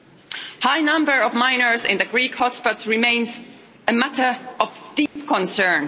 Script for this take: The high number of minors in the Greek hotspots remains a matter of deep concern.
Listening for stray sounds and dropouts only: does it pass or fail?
fail